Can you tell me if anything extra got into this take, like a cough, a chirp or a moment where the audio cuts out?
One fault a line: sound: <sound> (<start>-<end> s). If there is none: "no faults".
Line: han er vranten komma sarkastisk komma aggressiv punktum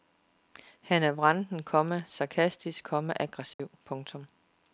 sound: dropout (3.5-3.6 s)